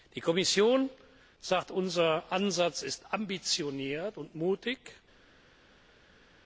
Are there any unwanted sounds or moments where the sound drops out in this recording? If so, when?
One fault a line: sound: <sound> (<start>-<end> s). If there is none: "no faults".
no faults